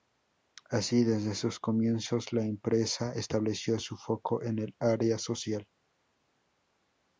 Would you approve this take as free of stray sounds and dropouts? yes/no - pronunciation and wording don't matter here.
yes